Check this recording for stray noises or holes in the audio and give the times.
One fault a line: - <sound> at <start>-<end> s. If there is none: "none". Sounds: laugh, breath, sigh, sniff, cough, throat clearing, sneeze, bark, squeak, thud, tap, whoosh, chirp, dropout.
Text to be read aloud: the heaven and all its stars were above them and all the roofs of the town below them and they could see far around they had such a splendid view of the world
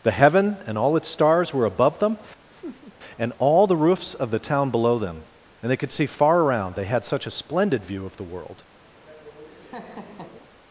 - laugh at 2.5-3.0 s
- laugh at 8.9-10.5 s